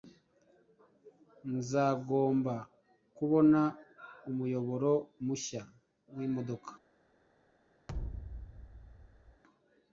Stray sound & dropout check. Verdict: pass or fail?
fail